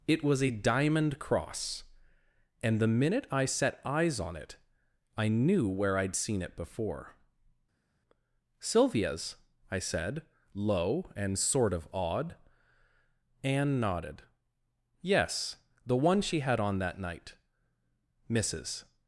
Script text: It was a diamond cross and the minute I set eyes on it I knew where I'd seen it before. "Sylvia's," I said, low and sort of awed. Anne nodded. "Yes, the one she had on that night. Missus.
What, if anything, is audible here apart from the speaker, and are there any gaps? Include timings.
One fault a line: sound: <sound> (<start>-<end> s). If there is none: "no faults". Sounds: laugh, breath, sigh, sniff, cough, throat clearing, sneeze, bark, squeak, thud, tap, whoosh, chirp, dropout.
no faults